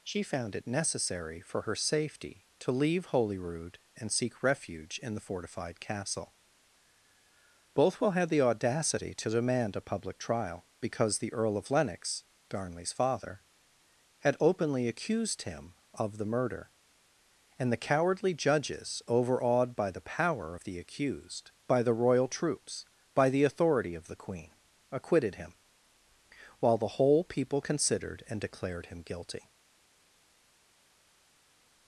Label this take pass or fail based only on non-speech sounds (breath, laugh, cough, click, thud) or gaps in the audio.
pass